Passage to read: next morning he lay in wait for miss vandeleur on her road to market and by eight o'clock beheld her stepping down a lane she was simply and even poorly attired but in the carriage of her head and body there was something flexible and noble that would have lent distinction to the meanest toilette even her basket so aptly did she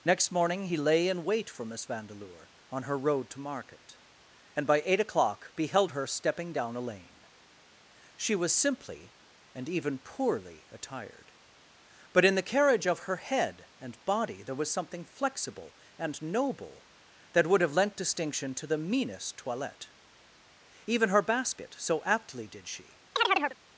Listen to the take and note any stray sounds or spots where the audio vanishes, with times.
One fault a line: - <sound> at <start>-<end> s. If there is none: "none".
- chirp at 23.2-23.6 s